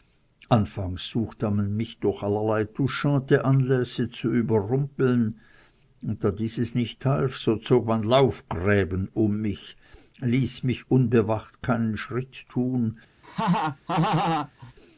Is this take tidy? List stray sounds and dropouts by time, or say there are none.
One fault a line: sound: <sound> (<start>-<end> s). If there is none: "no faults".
sound: laugh (13.2-14.7 s)